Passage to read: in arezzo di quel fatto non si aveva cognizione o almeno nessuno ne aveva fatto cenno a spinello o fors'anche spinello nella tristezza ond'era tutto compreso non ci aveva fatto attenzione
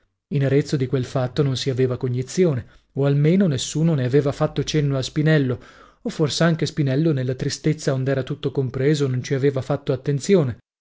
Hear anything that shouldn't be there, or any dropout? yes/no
no